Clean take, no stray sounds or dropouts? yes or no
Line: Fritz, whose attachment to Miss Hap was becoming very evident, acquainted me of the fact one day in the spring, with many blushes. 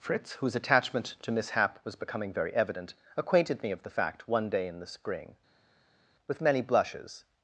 yes